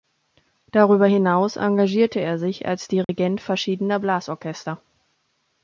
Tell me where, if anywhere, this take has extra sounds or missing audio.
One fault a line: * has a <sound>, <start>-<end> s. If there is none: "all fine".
* has a dropout, 3.0-3.1 s